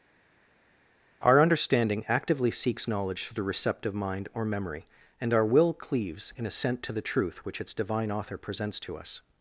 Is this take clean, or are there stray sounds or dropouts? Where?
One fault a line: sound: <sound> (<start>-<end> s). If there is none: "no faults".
no faults